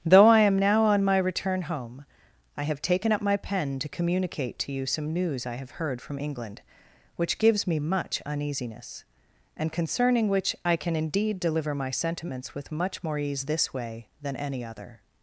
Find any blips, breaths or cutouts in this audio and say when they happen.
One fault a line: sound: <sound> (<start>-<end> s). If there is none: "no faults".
no faults